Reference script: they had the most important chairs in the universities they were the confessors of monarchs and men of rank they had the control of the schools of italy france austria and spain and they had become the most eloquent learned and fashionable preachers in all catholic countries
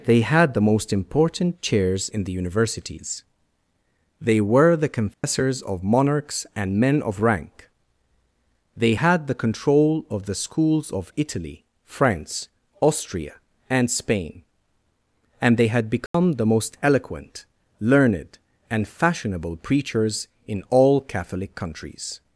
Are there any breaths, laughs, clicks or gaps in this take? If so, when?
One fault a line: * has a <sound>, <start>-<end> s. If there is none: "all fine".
* has a dropout, 5.1-5.2 s
* has a dropout, 16.1-16.1 s